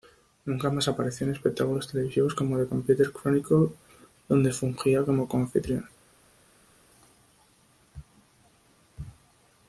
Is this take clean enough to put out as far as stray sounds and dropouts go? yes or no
yes